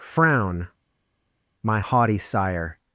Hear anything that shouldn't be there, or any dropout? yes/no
no